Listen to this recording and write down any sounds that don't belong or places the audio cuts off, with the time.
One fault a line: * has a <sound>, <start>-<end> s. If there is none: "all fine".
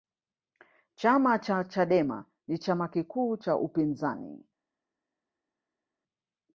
all fine